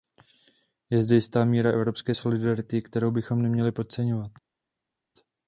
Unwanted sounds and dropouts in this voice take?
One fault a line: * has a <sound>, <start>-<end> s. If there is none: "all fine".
all fine